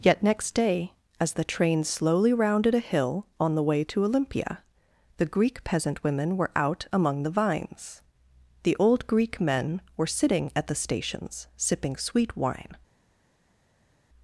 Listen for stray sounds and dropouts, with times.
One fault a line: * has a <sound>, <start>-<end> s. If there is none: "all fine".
all fine